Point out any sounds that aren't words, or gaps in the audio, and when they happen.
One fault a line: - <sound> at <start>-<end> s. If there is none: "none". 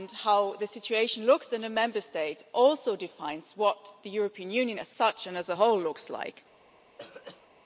- throat clearing at 7.0-7.5 s